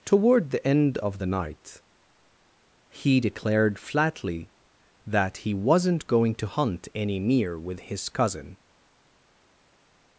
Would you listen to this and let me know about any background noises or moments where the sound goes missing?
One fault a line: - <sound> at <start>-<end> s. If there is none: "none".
none